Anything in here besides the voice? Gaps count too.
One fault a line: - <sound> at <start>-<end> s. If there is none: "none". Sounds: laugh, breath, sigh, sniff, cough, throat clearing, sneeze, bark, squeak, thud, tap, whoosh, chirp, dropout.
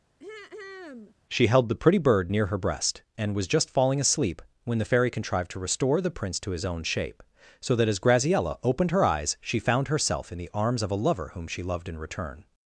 - throat clearing at 0.2-1.2 s